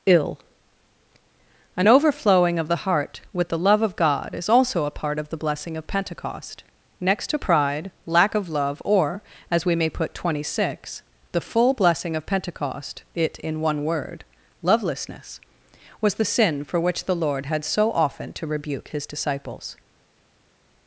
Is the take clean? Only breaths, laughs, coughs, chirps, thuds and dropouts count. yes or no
yes